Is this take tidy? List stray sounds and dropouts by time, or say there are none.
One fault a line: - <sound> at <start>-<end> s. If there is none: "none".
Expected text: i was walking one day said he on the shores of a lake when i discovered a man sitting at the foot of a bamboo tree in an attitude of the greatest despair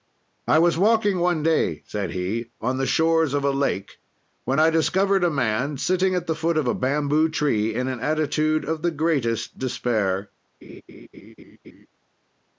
- laugh at 10.6-11.9 s